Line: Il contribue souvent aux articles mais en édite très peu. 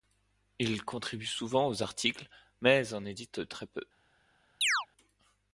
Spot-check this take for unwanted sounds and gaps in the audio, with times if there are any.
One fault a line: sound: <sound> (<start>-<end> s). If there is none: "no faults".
sound: chirp (4.6-4.9 s)